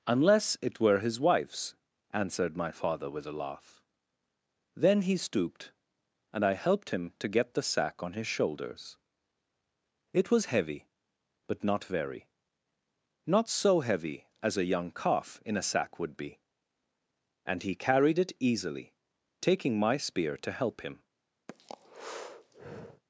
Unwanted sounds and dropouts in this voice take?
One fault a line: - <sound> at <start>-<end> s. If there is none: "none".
- breath at 21.5-23.0 s